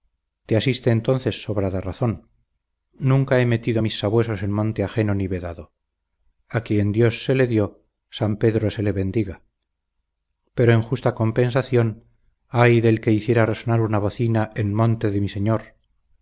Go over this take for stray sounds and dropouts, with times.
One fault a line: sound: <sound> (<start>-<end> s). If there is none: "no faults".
no faults